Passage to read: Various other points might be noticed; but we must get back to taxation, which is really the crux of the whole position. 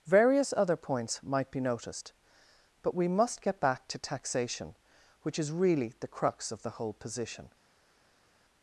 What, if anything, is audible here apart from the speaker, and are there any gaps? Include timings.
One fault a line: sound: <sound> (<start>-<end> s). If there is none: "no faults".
no faults